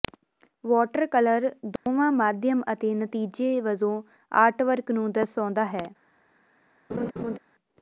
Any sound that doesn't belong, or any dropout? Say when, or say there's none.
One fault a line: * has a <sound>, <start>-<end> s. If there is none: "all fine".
* has a dropout, 1.8-1.9 s
* has a laugh, 6.9-7.4 s